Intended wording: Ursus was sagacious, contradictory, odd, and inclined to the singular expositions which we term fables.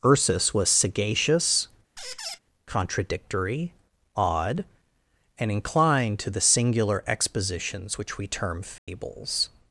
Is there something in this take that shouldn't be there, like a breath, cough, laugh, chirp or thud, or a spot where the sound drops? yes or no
yes